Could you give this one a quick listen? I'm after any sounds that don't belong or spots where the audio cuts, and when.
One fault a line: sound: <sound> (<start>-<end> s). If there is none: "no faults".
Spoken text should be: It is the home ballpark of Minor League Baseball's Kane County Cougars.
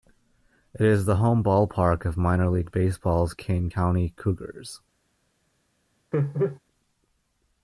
sound: laugh (6.1-6.6 s)